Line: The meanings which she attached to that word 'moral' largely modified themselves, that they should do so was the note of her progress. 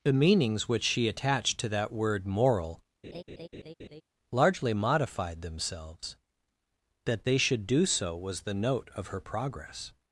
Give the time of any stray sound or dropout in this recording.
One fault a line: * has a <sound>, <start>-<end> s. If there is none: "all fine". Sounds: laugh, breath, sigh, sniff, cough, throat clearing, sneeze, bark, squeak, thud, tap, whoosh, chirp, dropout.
* has a laugh, 3.0-4.0 s